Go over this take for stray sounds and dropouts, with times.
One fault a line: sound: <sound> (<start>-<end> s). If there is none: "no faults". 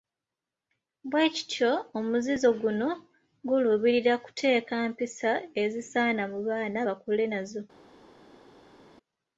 no faults